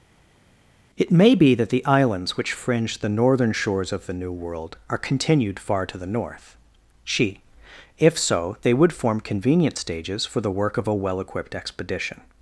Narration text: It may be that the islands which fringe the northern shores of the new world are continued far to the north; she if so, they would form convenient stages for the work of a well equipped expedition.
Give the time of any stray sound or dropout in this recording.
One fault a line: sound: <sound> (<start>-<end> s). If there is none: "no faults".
no faults